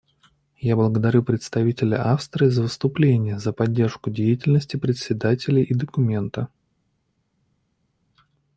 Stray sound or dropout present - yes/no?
no